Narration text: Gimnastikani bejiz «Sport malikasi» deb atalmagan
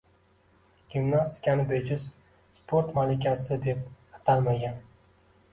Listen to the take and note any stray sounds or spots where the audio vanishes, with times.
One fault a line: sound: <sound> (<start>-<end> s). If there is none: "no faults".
no faults